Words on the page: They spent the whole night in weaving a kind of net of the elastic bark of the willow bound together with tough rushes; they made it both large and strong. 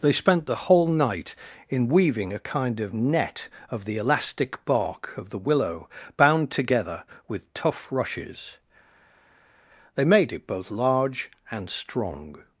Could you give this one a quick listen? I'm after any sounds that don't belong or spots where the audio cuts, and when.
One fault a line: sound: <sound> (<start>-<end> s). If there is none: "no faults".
no faults